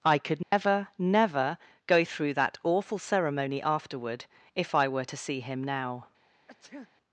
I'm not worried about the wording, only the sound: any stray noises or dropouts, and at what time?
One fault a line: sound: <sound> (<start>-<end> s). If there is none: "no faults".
sound: dropout (0.4-0.5 s)
sound: sneeze (6.5-6.9 s)